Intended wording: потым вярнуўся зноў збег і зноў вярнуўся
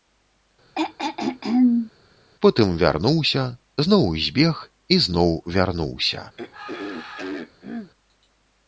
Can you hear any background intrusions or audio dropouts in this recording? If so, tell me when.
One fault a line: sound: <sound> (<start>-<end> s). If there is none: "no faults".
sound: throat clearing (0.8-1.9 s)
sound: throat clearing (6.4-7.9 s)